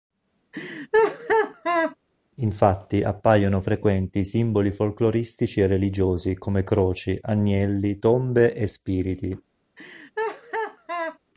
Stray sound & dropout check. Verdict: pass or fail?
fail